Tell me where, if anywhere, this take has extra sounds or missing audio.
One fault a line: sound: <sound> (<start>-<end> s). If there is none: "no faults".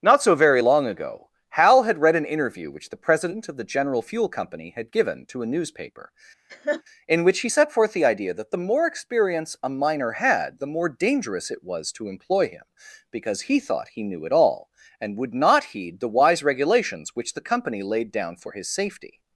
sound: laugh (6.5-6.8 s)